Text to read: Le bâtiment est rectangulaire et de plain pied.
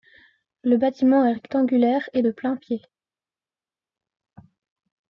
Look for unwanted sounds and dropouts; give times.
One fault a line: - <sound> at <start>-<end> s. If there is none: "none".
none